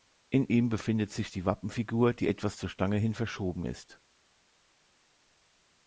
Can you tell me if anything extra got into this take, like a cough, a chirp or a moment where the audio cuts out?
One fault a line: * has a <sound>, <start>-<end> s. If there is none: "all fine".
all fine